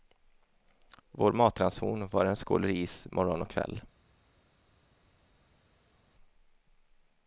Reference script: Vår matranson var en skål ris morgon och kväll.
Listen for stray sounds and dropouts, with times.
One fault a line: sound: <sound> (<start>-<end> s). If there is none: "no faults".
no faults